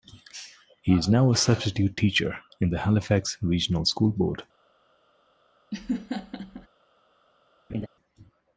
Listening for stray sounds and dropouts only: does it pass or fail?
fail